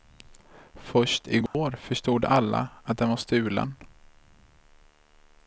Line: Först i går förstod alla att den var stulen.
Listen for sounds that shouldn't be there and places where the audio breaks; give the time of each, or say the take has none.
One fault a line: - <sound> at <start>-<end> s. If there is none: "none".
- dropout at 1.5-1.5 s